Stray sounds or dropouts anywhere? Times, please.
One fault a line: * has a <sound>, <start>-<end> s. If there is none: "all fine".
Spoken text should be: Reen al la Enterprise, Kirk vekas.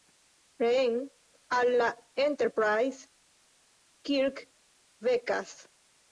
all fine